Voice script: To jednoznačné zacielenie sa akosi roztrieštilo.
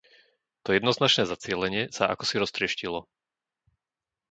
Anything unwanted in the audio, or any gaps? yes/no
no